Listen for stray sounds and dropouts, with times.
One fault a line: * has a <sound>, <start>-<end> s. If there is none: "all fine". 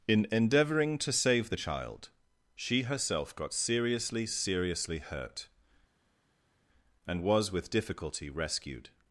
all fine